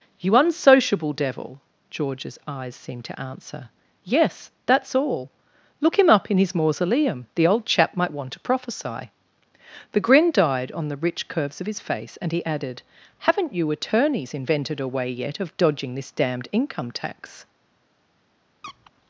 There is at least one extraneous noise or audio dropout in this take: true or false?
true